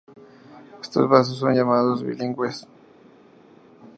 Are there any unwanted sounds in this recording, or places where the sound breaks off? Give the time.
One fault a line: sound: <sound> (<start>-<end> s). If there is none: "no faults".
no faults